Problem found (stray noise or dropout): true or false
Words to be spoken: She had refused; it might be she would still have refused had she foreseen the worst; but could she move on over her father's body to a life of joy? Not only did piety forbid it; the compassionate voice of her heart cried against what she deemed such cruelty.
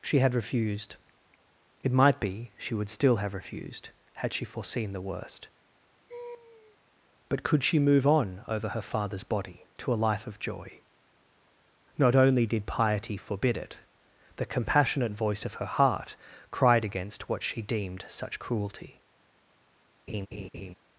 true